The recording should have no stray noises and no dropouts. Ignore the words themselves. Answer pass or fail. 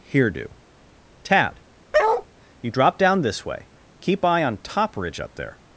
fail